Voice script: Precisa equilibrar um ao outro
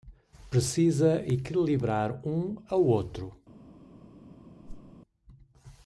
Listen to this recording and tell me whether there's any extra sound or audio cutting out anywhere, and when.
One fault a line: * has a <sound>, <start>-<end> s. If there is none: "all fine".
* has a whoosh, 4.6-4.9 s